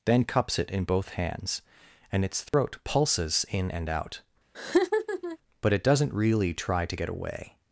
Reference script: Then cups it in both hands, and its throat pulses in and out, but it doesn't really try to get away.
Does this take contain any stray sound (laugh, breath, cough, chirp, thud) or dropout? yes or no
yes